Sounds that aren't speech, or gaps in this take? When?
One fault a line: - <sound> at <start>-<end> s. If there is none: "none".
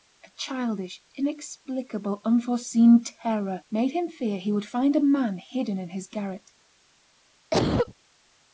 - cough at 7.5-7.9 s